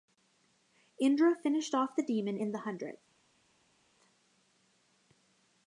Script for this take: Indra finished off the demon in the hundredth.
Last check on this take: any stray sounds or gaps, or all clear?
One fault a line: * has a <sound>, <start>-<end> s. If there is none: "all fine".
all fine